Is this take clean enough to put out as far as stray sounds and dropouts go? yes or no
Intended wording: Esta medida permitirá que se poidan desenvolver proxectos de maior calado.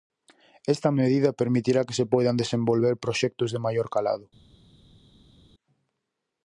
yes